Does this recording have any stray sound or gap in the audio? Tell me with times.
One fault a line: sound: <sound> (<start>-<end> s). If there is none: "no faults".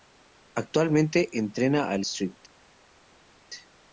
no faults